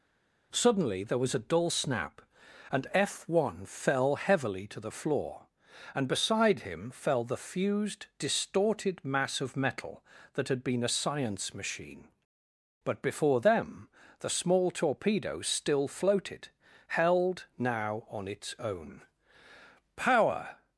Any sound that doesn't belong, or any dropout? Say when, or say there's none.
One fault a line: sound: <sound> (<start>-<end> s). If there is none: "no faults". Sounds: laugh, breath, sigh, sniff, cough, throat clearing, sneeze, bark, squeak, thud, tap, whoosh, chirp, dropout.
no faults